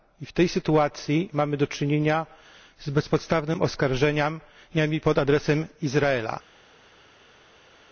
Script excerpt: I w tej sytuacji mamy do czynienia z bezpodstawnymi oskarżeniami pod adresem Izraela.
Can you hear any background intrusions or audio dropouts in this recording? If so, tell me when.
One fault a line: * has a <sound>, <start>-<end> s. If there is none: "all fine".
all fine